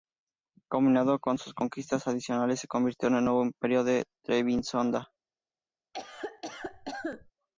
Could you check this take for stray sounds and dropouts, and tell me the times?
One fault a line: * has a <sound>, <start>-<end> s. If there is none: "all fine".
* has a cough, 5.9-7.3 s